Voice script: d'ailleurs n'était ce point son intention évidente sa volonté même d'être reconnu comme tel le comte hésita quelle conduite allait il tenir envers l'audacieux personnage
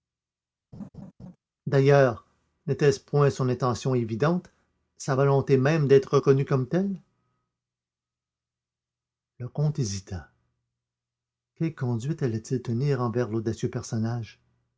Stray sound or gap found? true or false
true